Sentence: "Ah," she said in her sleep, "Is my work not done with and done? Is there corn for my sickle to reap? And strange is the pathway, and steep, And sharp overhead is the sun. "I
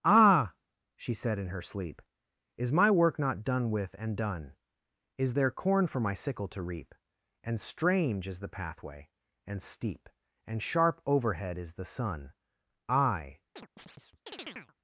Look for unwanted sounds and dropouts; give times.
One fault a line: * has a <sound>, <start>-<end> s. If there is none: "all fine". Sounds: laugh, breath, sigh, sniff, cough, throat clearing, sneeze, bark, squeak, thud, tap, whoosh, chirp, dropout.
* has a chirp, 13.6-14.7 s